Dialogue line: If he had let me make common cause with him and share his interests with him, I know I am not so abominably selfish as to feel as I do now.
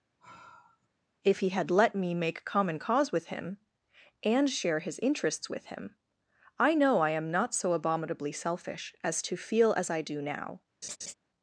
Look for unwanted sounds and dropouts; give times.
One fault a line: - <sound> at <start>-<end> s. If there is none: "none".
- sigh at 0.2-0.9 s
- laugh at 10.8-11.1 s